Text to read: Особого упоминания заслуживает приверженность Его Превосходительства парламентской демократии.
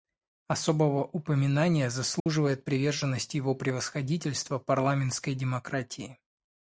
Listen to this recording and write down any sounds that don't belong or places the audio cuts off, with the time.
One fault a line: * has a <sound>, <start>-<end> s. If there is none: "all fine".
* has a dropout, 2.2-2.3 s